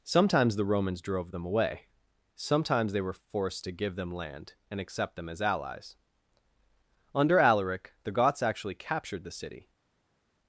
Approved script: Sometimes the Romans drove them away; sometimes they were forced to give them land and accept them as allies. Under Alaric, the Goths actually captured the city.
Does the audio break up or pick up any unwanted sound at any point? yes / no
no